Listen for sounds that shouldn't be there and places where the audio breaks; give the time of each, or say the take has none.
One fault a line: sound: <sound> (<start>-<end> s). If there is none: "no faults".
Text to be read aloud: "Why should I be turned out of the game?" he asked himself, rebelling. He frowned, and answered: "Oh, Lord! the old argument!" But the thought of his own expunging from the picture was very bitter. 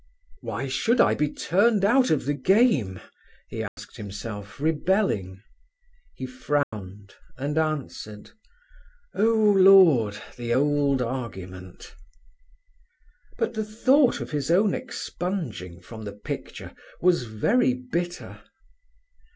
sound: dropout (3.7-3.8 s)
sound: dropout (6.6-6.7 s)